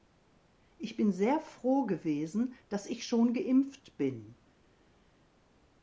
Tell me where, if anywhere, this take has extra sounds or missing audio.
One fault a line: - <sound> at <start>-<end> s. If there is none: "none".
none